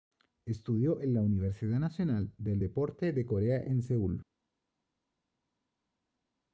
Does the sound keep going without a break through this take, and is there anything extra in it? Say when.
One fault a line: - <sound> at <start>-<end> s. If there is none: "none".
none